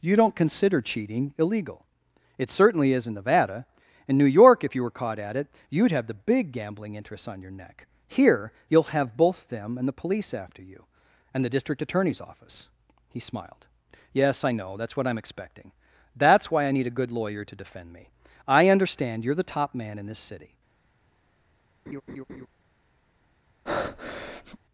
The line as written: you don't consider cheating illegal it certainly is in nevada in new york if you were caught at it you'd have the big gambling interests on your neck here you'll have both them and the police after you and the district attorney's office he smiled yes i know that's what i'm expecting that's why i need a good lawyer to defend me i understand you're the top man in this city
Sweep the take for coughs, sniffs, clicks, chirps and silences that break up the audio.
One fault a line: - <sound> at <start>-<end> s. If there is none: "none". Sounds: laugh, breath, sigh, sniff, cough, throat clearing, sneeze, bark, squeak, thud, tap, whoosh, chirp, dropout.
- laugh at 21.9-22.5 s
- breath at 23.7-24.6 s